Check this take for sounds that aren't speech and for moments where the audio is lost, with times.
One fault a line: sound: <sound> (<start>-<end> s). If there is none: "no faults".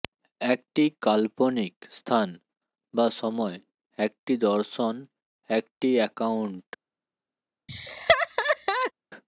sound: laugh (7.7-8.9 s)